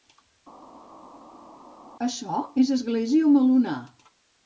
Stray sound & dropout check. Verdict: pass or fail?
pass